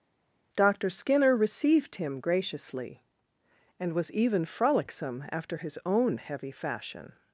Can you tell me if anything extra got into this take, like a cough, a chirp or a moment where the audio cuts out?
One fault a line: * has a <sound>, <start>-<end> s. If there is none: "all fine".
all fine